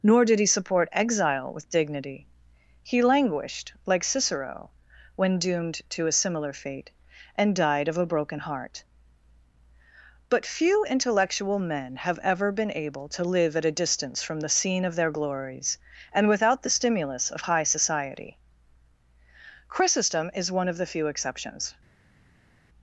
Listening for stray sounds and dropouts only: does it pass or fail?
pass